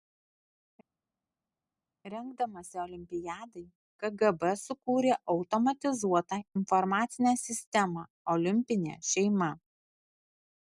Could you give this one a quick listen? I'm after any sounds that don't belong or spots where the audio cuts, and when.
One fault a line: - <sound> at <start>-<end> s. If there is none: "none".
none